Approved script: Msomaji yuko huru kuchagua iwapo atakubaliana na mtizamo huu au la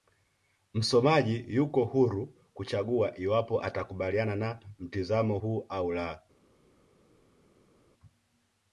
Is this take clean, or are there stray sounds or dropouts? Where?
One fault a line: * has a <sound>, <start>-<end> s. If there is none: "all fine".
all fine